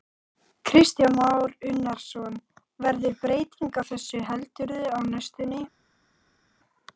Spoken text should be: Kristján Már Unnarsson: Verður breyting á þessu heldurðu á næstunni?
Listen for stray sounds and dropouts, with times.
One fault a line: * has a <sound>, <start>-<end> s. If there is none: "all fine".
all fine